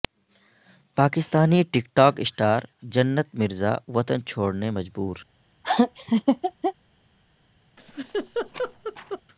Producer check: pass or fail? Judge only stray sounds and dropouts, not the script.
fail